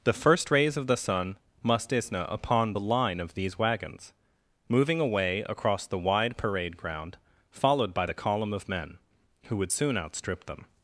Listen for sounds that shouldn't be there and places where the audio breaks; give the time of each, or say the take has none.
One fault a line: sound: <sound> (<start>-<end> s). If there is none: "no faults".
no faults